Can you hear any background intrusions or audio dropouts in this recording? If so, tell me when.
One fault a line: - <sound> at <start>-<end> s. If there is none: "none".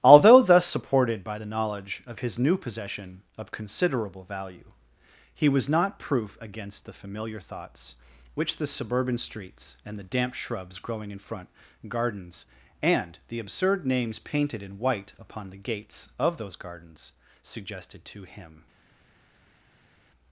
none